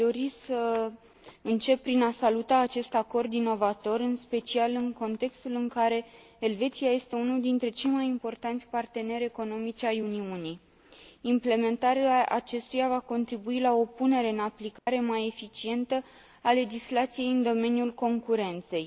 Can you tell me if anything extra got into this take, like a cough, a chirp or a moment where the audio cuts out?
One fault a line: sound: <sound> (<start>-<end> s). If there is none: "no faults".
sound: dropout (14.8-14.9 s)